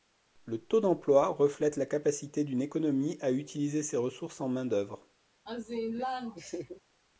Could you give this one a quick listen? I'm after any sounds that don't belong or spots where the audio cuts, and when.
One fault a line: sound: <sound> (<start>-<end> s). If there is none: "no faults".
sound: laugh (5.5-6.8 s)